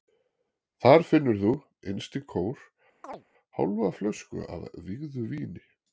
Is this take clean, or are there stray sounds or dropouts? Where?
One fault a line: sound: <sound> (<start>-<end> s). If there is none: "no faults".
sound: chirp (3.0-3.2 s)